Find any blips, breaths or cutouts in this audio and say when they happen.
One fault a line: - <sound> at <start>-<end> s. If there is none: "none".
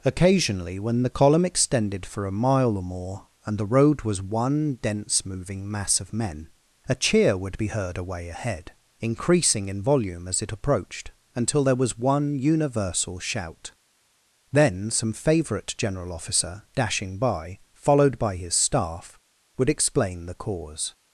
none